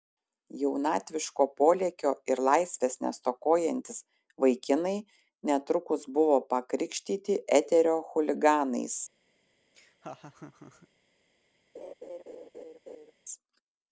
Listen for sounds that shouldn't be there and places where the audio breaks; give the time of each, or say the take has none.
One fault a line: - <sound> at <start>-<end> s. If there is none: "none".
- laugh at 9.7-10.9 s
- laugh at 11.7-13.1 s